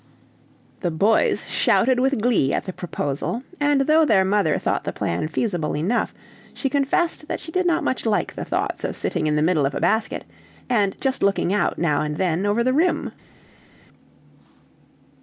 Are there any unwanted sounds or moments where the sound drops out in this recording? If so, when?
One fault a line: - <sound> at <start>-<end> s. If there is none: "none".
none